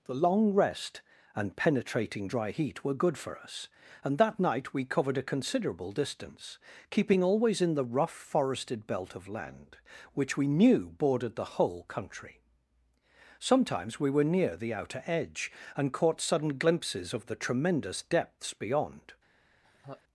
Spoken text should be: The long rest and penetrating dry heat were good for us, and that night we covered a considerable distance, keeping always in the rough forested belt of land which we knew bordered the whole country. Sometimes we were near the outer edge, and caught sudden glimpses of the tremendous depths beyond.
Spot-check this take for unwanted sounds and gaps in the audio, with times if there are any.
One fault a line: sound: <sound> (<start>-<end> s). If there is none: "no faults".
sound: laugh (19.6-20.0 s)